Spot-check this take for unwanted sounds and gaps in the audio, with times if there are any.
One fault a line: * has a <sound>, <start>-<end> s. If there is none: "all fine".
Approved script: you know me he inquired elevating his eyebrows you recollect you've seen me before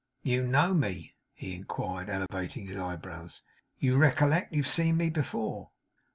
* has a dropout, 2.3-2.3 s